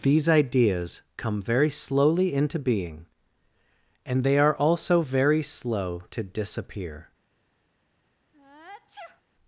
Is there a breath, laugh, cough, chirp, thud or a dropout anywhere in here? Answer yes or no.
yes